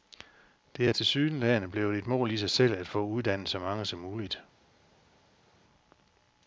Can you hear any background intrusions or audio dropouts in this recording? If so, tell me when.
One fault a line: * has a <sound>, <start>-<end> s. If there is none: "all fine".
all fine